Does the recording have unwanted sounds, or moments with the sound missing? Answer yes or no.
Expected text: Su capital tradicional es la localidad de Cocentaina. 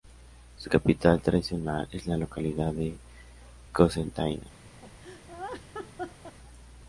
yes